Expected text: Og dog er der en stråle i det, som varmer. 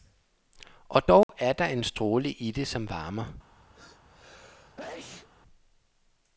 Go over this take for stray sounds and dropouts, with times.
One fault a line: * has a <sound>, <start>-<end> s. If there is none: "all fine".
* has a dropout, 1.2-1.3 s
* has a sneeze, 3.7-5.3 s